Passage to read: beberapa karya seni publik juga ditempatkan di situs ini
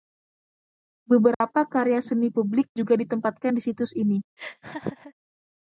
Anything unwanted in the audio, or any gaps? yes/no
yes